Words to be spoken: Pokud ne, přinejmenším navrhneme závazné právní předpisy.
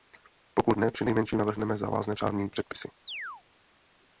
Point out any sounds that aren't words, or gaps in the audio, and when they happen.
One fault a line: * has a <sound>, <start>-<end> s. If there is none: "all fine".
* has a chirp, 3.1-3.4 s